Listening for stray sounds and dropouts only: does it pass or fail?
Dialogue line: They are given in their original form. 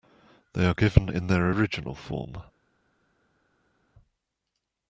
pass